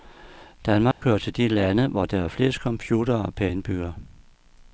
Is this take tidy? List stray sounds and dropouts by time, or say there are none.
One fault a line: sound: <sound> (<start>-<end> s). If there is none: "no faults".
sound: dropout (0.9-1.0 s)